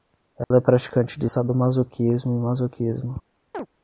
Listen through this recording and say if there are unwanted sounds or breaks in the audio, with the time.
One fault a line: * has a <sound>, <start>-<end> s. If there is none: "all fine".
* has a dropout, 0.4-0.5 s
* has a chirp, 3.5-3.7 s